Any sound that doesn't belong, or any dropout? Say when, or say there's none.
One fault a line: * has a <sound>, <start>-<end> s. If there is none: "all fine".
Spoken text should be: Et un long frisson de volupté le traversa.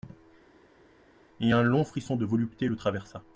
all fine